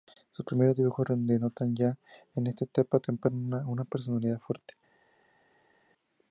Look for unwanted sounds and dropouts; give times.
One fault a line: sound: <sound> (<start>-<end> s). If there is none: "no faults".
no faults